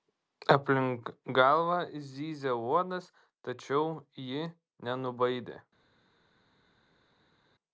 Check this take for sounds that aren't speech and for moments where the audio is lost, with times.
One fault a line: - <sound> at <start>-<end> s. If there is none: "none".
none